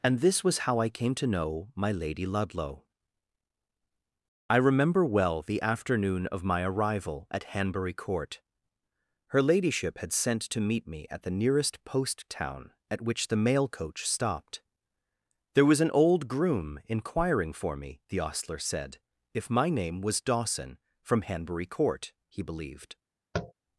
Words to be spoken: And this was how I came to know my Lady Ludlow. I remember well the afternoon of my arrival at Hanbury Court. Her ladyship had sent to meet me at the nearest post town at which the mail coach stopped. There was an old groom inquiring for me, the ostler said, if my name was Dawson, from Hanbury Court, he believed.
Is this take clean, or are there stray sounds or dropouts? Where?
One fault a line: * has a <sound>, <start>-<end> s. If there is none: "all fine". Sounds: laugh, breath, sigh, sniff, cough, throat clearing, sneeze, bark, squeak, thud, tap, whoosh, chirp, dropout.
* has a tap, 23.3-23.5 s